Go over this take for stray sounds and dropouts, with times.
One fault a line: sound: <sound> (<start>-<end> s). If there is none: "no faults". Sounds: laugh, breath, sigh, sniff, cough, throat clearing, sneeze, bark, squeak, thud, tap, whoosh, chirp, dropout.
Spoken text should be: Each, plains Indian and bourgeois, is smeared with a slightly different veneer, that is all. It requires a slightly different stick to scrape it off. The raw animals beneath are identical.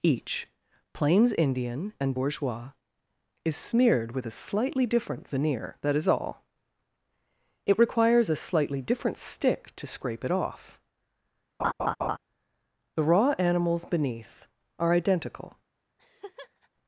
sound: laugh (11.6-12.2 s)
sound: laugh (16.0-16.7 s)